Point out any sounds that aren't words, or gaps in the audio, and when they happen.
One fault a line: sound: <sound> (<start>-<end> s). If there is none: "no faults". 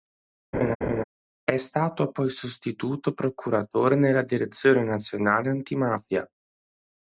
sound: laugh (0.5-1.0 s)